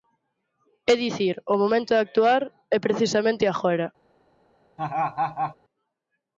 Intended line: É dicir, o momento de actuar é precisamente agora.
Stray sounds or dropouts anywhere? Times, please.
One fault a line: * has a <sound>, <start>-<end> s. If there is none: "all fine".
* has a laugh, 4.8-5.6 s